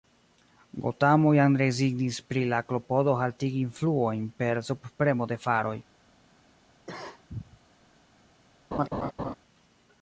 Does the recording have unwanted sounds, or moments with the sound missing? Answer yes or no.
yes